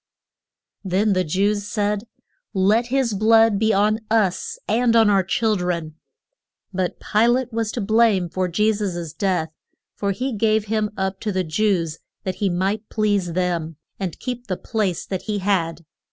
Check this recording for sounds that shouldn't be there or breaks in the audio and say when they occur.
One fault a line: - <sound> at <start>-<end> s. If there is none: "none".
none